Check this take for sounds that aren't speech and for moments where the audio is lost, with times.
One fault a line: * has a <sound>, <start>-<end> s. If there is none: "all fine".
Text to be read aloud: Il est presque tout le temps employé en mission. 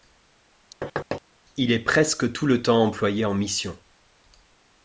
* has a thud, 0.8-1.2 s